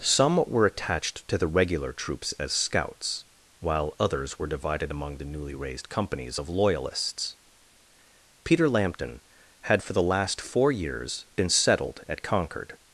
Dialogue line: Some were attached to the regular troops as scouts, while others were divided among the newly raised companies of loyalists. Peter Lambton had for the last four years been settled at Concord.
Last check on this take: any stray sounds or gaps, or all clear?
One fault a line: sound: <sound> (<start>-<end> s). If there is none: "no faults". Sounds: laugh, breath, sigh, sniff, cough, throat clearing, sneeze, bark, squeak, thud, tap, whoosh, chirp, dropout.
no faults